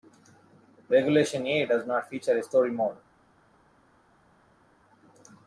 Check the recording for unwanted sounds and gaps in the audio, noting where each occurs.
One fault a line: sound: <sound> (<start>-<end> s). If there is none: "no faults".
no faults